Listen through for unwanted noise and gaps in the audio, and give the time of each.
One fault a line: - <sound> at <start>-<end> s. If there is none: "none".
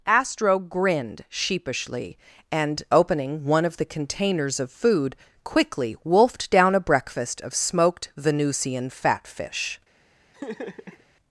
- laugh at 10.3-11.0 s